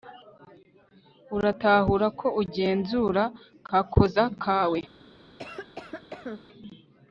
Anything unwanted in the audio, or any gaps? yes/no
yes